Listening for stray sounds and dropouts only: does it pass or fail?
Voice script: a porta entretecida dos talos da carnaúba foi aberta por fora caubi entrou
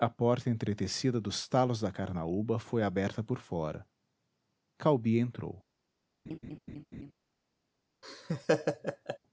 fail